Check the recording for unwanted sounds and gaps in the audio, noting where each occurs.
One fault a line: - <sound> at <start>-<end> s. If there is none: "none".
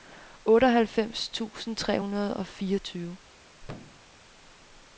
- thud at 3.6-4.1 s